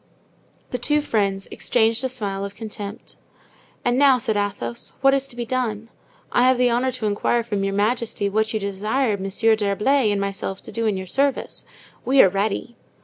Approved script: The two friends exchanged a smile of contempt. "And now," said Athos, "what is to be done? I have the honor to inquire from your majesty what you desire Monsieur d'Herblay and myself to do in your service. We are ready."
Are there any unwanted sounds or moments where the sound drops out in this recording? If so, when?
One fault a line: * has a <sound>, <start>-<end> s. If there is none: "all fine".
all fine